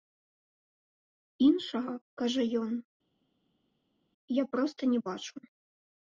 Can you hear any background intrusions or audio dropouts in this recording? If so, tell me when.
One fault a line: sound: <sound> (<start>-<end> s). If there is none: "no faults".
no faults